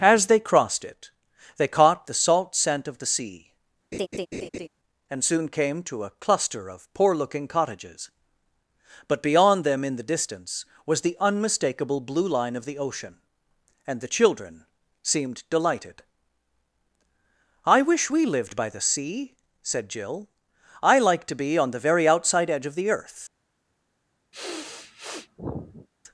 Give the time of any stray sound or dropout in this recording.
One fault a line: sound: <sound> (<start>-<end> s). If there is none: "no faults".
sound: laugh (3.9-4.7 s)
sound: sniff (24.3-25.9 s)